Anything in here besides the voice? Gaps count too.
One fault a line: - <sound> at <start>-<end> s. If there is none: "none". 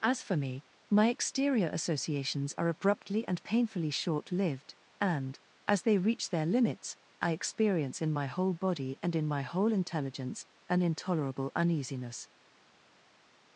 none